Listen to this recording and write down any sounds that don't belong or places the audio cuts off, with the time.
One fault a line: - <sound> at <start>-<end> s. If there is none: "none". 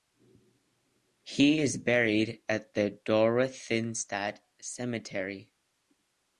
none